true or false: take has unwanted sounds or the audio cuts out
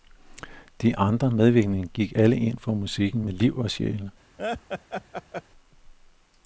true